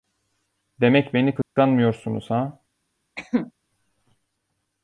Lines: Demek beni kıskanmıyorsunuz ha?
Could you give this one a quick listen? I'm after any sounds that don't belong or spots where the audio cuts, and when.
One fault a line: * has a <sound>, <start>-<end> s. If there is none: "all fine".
* has a dropout, 1.4-1.6 s
* has a cough, 3.2-3.5 s